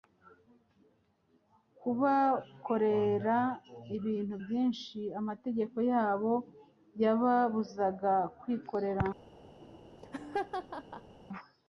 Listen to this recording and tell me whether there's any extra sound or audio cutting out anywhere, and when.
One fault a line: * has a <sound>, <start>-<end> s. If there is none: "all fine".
* has a laugh, 9.6-11.2 s